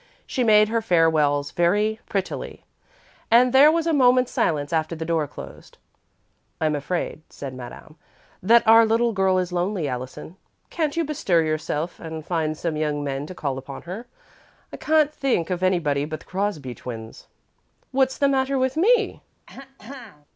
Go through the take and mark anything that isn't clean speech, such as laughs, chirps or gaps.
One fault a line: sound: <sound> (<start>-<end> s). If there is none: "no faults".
sound: throat clearing (19.5-20.3 s)